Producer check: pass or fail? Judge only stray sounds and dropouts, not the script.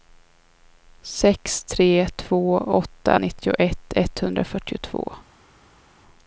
pass